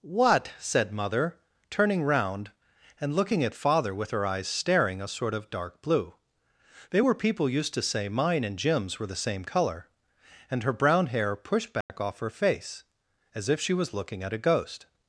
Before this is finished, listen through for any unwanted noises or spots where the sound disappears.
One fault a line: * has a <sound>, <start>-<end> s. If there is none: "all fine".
* has a dropout, 11.8-11.9 s